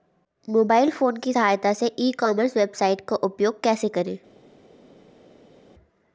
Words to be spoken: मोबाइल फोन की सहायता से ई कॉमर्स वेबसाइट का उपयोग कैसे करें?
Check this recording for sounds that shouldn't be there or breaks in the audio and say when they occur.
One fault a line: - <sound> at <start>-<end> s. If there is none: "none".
none